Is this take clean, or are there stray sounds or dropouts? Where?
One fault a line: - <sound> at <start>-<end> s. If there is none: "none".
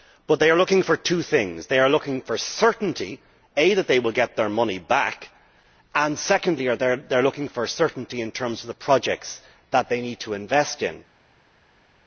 none